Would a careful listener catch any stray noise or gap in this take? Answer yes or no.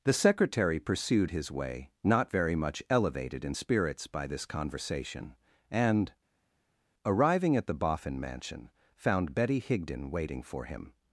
no